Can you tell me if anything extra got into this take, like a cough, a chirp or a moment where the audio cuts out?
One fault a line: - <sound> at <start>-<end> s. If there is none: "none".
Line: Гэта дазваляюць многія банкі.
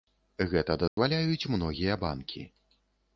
- dropout at 0.9-1.0 s